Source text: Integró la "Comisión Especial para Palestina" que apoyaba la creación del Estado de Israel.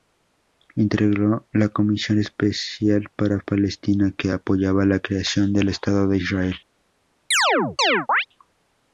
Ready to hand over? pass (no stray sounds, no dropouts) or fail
fail